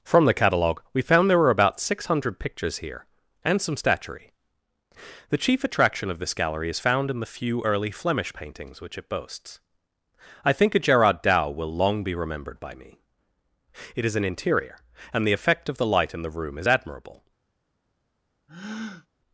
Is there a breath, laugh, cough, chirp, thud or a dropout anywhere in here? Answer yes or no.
yes